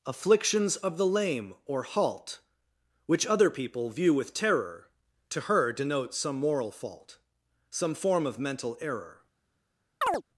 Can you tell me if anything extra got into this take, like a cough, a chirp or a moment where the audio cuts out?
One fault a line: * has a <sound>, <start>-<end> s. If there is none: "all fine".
* has a chirp, 10.0-10.2 s